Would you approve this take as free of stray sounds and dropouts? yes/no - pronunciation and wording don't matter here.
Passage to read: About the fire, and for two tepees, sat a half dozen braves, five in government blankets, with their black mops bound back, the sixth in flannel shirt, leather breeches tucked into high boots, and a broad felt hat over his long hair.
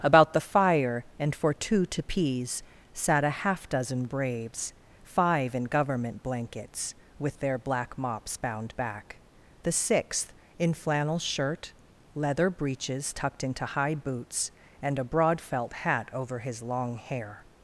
yes